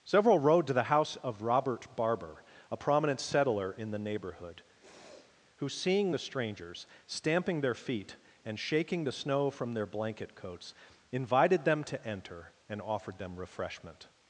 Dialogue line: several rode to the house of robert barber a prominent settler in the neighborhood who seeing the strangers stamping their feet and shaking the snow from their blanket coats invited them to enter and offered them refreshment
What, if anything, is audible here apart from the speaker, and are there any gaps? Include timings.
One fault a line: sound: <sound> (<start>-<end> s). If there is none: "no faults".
sound: sniff (4.8-5.4 s)